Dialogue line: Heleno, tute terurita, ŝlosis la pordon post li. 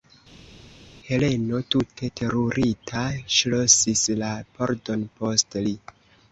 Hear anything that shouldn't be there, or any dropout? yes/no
no